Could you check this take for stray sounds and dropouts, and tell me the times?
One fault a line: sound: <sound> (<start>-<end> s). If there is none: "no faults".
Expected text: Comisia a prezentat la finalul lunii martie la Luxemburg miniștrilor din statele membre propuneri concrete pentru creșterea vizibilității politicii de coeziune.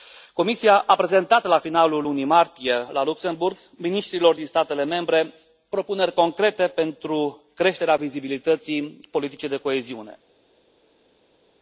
no faults